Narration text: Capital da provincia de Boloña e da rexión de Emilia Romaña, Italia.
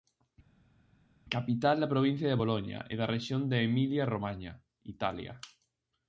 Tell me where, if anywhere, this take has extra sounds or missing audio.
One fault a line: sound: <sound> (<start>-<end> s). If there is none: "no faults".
no faults